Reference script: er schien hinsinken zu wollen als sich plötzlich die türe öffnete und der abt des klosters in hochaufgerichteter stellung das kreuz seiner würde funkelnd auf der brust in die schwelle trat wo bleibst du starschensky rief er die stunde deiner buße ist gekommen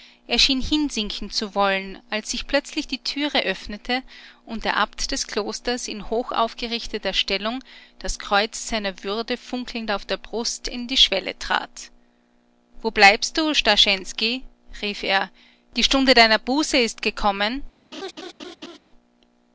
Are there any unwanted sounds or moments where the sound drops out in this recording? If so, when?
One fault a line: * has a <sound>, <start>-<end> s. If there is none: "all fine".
* has a laugh, 17.9-18.8 s